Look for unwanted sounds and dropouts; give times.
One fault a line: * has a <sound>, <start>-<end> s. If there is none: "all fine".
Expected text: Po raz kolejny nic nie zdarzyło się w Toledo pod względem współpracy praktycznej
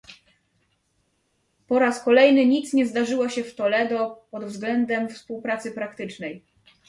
all fine